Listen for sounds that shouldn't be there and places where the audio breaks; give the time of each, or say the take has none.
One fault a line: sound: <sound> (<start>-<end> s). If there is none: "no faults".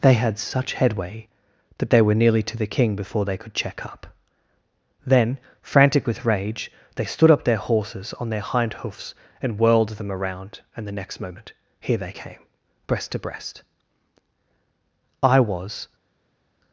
no faults